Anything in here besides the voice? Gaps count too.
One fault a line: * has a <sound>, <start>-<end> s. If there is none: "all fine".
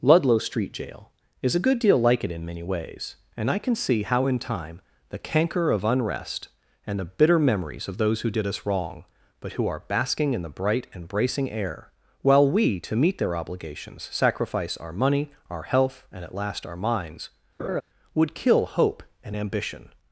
* has a laugh, 17.6-17.8 s